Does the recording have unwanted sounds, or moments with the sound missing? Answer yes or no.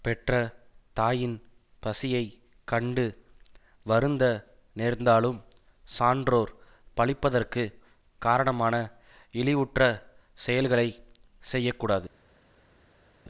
no